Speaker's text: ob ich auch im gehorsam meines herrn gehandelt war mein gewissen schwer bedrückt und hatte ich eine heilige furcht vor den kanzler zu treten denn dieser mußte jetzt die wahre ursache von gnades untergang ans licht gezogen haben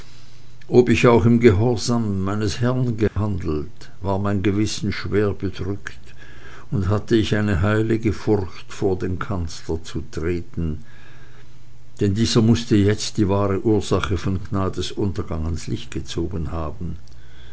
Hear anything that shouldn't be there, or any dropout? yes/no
yes